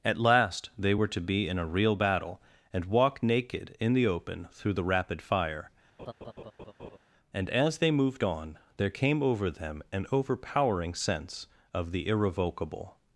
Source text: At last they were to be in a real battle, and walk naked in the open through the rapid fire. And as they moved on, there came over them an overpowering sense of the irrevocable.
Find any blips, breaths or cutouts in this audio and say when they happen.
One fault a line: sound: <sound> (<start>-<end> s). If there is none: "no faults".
sound: laugh (6.0-7.0 s)